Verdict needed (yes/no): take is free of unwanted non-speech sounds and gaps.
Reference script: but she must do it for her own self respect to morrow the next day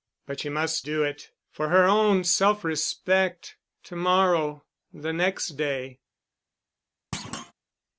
no